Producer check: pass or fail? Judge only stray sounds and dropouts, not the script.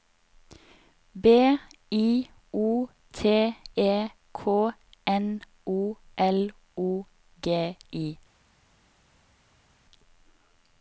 pass